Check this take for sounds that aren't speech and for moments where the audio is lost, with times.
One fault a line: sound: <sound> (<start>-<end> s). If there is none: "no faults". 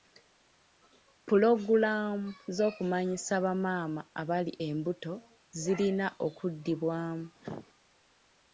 sound: cough (7.4-7.7 s)